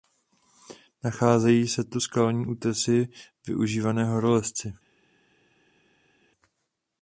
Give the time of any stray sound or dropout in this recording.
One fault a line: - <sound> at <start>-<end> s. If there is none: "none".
none